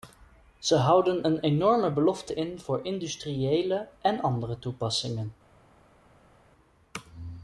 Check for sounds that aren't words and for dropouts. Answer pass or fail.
pass